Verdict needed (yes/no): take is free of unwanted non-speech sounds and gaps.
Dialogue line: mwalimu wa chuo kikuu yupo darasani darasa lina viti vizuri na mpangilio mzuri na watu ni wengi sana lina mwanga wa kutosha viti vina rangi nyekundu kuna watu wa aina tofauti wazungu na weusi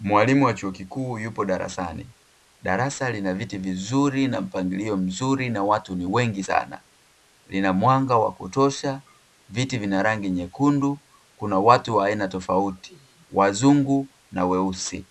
yes